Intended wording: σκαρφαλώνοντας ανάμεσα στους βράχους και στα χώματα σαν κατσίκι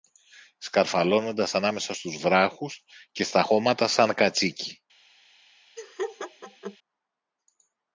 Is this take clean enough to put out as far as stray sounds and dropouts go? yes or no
no